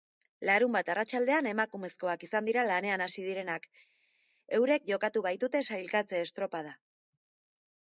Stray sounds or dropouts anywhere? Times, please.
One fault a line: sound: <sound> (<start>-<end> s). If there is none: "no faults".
no faults